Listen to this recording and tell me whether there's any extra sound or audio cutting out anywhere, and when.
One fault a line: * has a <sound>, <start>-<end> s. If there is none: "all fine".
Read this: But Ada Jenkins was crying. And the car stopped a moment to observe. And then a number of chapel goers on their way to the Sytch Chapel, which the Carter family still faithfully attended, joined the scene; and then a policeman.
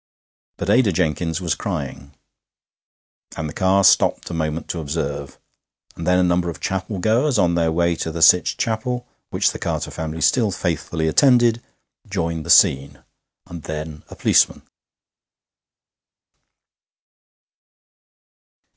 all fine